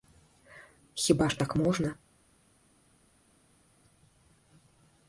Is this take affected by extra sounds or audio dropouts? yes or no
no